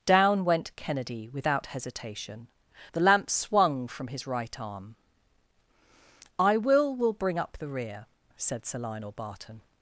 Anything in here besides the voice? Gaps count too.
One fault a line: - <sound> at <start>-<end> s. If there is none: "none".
none